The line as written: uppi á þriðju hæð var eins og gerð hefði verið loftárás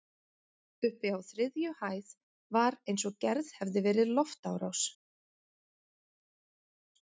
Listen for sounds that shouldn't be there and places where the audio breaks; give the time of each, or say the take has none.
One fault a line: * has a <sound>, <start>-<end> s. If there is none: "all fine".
all fine